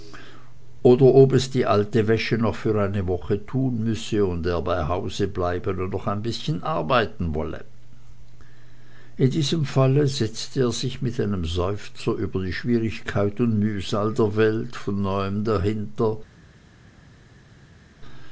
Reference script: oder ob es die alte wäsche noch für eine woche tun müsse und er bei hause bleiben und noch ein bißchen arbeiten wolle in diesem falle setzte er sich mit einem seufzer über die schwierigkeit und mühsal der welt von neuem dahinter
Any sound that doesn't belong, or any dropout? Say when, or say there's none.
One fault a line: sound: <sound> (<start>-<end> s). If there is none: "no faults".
no faults